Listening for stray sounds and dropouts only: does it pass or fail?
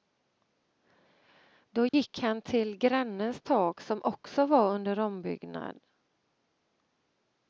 fail